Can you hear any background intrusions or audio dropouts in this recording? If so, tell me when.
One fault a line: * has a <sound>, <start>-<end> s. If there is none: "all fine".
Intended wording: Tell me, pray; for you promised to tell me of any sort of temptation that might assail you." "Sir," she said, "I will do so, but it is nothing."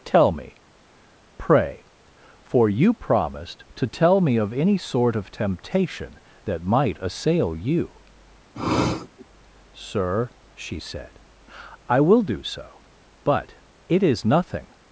* has a sniff, 8.5-9.3 s